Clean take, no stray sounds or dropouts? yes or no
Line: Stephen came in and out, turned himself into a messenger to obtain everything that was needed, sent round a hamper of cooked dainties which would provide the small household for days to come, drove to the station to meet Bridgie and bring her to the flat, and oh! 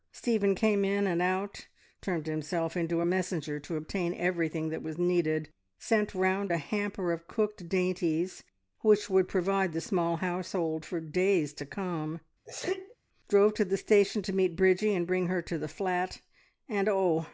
no